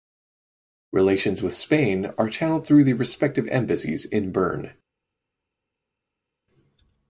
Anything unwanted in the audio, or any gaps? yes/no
no